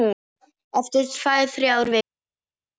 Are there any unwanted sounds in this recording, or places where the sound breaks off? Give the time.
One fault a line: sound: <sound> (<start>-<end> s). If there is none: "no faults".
no faults